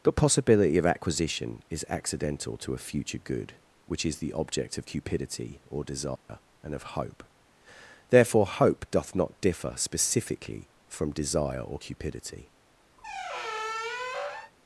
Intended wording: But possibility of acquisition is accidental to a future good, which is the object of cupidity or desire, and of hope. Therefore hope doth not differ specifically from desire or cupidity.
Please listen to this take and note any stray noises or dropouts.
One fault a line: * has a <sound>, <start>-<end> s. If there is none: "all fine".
* has a dropout, 6.2-6.3 s
* has a squeak, 13.0-14.5 s